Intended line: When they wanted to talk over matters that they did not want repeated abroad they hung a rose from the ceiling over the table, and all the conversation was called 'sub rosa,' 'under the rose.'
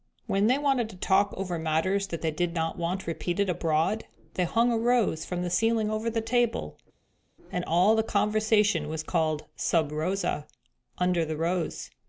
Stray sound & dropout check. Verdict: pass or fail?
pass